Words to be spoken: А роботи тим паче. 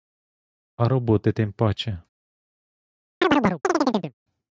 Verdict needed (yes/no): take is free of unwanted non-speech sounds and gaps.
no